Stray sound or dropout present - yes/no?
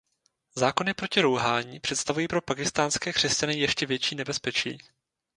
no